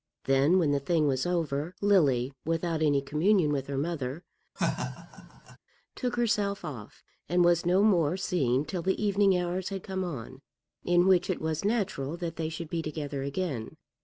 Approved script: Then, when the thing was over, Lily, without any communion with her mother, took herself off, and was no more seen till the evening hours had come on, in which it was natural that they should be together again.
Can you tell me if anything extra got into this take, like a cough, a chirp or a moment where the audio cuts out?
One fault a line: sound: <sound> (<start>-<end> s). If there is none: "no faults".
sound: laugh (4.6-5.6 s)